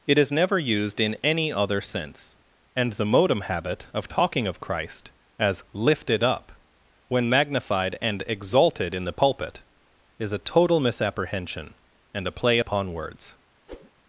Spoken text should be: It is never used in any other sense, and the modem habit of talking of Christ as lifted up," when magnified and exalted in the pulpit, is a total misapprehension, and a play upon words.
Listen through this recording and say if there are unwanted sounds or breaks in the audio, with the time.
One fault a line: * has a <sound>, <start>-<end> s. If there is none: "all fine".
* has a whoosh, 13.7-13.9 s